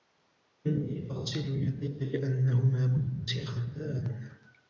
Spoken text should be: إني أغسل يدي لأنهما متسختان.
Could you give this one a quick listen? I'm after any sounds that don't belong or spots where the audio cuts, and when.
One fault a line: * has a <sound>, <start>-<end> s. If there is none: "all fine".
all fine